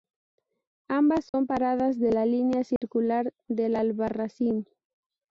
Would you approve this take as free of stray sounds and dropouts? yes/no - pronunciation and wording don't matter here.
no